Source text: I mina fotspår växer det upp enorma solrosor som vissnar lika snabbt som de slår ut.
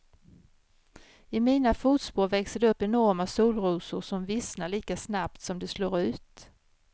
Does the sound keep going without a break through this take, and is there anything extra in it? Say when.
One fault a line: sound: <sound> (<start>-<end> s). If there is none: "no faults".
no faults